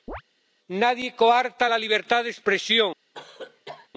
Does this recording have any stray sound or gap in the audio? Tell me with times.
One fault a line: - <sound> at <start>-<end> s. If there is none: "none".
- chirp at 0.1-0.2 s
- cough at 3.1-3.9 s